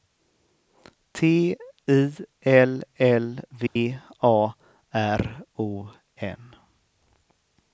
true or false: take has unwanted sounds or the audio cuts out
true